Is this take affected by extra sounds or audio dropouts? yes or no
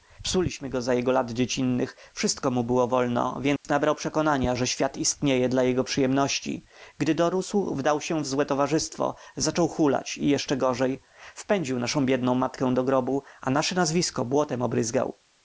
yes